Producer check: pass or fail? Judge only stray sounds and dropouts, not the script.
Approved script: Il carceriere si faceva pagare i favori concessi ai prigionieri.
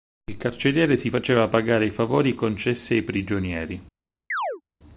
fail